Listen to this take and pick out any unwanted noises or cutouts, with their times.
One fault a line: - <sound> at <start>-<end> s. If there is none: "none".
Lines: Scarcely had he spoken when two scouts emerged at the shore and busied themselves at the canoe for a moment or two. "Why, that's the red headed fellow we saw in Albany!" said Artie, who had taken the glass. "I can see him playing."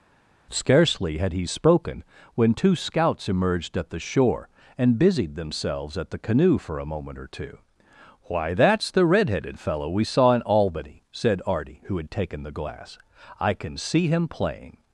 none